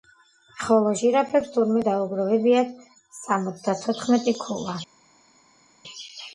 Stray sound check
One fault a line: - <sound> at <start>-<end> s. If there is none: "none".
none